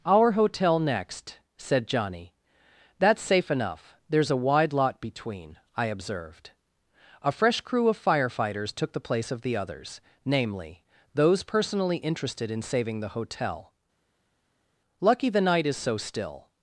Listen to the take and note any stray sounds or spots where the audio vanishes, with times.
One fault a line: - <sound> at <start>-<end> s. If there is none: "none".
none